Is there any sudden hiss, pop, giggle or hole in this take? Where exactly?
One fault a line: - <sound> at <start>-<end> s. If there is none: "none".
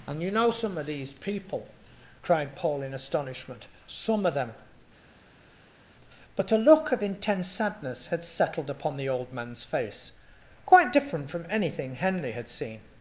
none